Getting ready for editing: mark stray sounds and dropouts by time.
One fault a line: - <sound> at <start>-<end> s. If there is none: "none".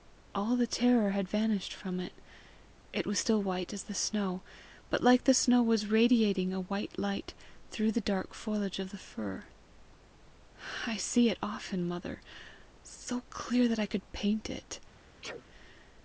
- sneeze at 15.2-15.5 s